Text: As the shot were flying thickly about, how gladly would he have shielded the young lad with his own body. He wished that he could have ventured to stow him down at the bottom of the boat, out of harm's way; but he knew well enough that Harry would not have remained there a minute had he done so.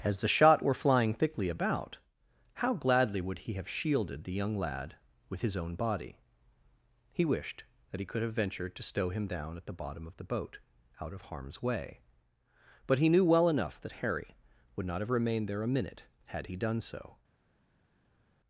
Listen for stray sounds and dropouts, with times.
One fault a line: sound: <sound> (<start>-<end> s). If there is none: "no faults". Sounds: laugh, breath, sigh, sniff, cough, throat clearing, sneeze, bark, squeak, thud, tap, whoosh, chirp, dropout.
no faults